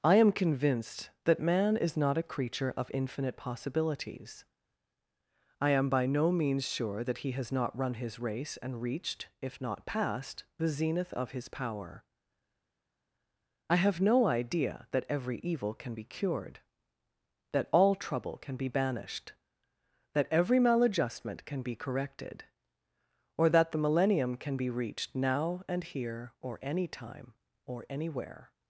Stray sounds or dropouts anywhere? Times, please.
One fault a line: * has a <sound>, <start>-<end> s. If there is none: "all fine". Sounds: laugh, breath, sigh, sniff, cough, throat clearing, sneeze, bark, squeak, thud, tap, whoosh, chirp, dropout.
all fine